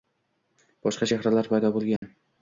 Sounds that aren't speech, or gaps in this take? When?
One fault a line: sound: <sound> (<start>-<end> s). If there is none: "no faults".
sound: dropout (2.0-2.0 s)